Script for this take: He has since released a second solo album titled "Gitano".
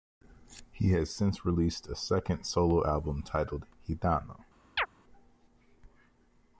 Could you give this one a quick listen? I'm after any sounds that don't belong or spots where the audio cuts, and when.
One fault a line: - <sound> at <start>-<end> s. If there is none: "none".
- chirp at 4.8-4.9 s